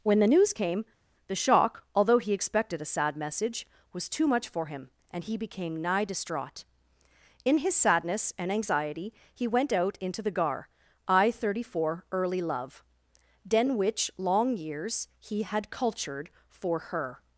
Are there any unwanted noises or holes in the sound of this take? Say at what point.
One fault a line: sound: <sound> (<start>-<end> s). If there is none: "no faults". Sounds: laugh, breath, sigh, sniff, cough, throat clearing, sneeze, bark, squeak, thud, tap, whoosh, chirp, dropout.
no faults